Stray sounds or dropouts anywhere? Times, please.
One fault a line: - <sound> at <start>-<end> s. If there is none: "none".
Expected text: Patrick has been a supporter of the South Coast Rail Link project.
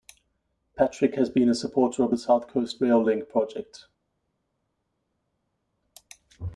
none